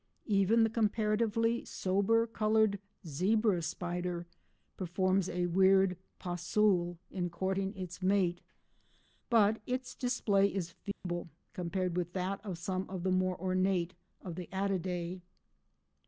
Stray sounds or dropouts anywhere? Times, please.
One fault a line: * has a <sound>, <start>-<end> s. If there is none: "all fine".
* has a dropout, 10.9-11.0 s